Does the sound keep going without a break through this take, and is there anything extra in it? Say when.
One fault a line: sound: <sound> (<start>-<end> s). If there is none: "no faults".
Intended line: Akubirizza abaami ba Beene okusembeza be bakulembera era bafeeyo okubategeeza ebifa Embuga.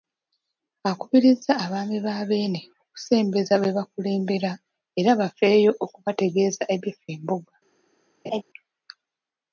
sound: laugh (8.2-8.4 s)